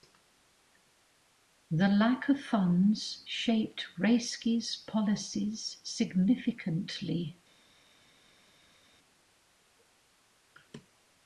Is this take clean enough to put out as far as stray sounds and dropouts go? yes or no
yes